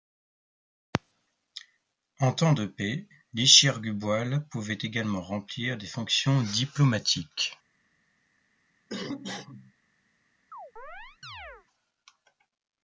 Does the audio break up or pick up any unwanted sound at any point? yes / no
yes